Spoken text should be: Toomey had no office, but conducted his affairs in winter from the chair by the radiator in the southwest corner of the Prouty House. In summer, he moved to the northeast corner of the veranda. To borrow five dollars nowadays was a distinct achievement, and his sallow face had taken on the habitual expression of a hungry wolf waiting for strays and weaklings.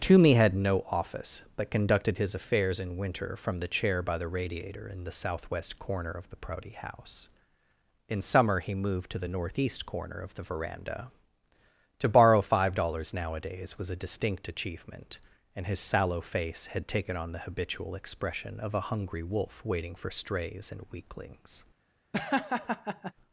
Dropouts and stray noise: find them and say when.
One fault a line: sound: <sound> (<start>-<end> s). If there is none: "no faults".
sound: laugh (22.1-23.1 s)